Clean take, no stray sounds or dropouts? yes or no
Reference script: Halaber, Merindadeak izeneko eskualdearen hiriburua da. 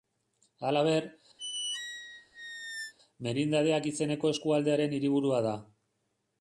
no